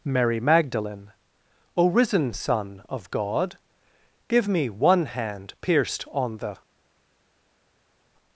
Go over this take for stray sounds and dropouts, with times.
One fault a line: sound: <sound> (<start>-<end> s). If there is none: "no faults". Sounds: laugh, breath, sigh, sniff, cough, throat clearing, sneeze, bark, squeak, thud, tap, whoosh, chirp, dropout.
no faults